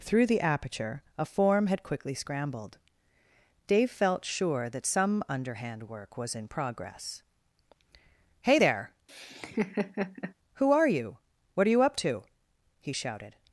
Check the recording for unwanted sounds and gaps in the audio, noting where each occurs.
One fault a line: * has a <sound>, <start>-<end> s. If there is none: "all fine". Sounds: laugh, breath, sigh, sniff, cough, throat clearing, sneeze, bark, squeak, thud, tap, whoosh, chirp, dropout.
* has a laugh, 9.1-10.3 s